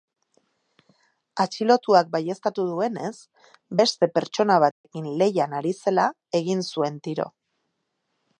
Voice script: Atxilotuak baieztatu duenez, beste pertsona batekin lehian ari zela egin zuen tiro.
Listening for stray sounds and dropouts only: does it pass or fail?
fail